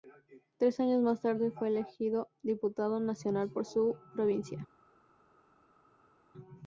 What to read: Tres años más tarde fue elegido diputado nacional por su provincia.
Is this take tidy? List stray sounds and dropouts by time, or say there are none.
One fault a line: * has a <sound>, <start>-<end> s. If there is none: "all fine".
all fine